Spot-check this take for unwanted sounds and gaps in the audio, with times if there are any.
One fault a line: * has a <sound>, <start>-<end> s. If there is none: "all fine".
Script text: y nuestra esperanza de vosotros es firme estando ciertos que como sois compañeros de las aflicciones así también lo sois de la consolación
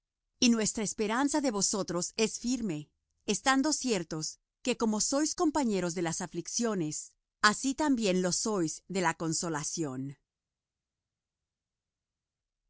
all fine